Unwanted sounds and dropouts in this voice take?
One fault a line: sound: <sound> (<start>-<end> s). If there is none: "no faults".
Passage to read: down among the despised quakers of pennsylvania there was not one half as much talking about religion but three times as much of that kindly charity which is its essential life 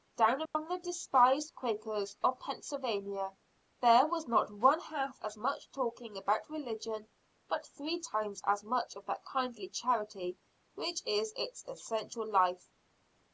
sound: dropout (0.5-0.5 s)